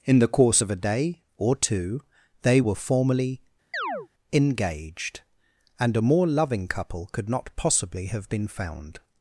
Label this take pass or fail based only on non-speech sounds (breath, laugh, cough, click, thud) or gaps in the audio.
fail